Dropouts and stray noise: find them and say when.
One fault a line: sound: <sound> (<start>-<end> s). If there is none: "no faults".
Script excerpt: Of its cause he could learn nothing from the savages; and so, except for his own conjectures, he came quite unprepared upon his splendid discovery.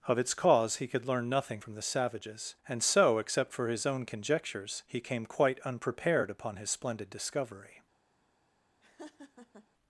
sound: laugh (8.8-9.7 s)